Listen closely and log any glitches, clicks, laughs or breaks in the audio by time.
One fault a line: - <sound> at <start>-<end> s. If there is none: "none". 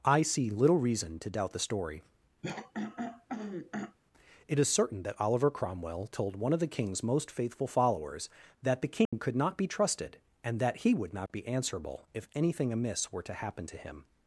- throat clearing at 2.4-4.0 s
- dropout at 9.1-9.1 s